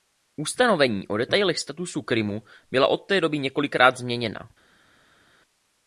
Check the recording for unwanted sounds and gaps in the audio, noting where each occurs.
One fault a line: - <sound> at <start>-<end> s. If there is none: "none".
none